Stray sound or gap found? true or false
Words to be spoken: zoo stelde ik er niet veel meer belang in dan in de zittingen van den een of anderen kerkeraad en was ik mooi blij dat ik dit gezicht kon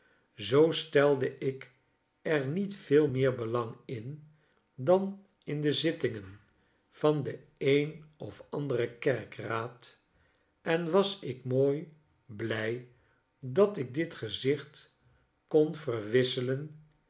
false